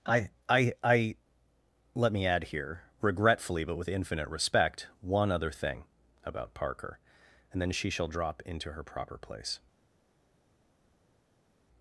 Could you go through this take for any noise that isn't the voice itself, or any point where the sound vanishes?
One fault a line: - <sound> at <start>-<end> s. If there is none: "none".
none